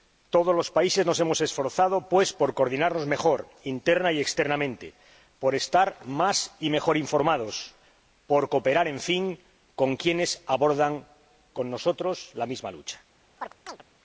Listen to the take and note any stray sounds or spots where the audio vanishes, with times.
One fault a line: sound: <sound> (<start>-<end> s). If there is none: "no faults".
sound: chirp (13.4-13.8 s)